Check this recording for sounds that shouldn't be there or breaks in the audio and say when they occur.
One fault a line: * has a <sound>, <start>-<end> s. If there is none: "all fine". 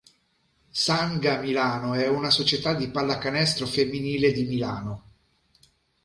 all fine